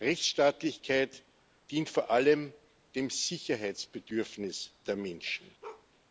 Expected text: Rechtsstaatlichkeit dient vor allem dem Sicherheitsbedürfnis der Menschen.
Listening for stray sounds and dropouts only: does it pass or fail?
fail